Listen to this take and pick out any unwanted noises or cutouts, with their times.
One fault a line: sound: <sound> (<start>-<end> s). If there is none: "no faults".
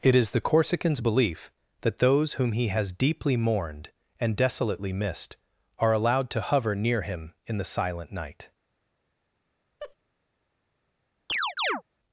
sound: laugh (9.8-10.0 s)
sound: chirp (11.3-11.8 s)